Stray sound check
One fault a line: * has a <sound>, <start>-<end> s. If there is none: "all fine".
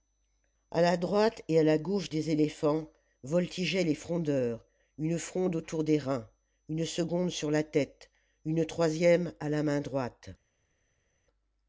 all fine